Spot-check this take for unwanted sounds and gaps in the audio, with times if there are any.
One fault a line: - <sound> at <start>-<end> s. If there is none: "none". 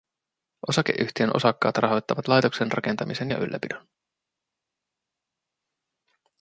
none